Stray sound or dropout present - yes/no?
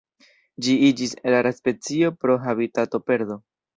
no